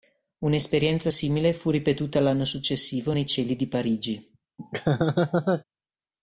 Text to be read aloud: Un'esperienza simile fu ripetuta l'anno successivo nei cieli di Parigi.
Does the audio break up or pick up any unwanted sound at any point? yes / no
yes